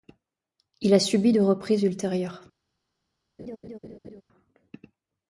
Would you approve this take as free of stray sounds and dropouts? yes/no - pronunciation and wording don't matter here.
no